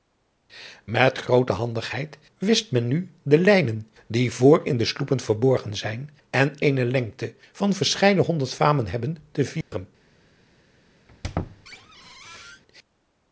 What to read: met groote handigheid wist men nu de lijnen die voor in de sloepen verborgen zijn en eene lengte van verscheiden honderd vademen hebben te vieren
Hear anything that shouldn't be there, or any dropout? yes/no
yes